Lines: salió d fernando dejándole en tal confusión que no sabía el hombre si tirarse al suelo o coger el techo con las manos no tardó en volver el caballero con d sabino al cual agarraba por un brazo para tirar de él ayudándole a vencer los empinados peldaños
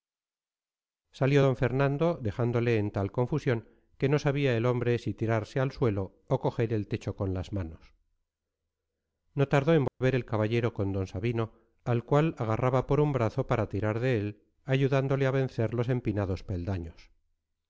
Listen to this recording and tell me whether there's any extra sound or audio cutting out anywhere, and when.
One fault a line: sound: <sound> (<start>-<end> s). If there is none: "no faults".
sound: dropout (9.9-10.0 s)